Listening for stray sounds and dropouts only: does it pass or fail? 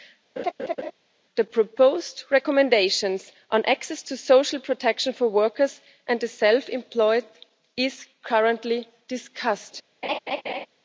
fail